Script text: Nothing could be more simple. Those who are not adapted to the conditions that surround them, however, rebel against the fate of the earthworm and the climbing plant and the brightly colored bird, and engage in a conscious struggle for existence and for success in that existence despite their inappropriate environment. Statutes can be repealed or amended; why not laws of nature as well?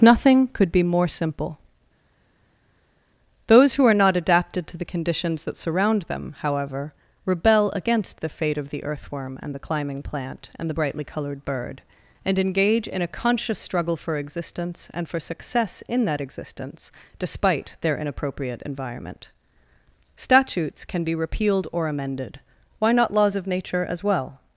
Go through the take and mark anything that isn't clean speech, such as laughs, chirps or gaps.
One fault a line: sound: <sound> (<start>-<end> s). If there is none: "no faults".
no faults